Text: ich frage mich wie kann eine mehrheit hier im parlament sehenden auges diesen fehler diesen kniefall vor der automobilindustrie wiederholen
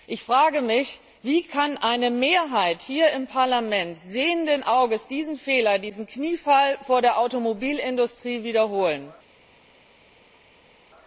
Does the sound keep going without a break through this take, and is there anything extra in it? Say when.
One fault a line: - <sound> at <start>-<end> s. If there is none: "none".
none